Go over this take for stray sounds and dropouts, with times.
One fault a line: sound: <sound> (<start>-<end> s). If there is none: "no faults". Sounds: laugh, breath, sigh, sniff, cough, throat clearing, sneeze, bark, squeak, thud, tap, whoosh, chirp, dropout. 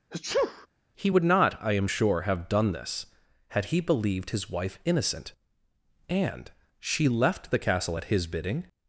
sound: sneeze (0.1-0.7 s)